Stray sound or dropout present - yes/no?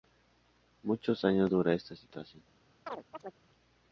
yes